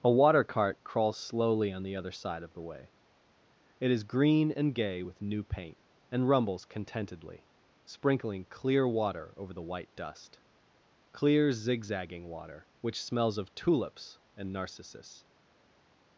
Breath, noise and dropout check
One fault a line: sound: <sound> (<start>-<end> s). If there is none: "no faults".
no faults